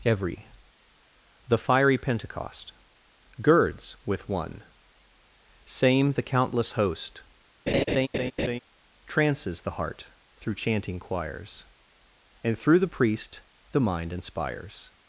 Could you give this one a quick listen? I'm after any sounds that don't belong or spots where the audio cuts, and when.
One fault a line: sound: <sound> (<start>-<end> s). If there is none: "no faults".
sound: laugh (7.7-8.6 s)